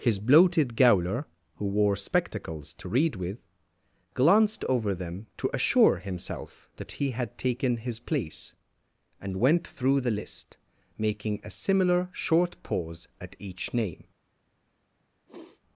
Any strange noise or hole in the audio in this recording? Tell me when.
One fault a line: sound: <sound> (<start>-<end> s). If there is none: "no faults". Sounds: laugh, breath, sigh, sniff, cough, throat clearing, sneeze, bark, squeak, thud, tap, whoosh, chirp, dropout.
sound: sniff (15.3-15.6 s)